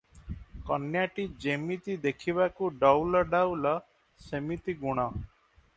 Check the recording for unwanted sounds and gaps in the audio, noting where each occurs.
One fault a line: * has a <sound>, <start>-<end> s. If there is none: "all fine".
all fine